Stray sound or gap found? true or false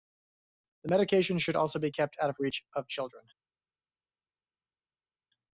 false